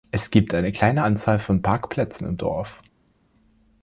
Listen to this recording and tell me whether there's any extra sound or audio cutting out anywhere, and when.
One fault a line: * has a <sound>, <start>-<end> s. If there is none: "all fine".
all fine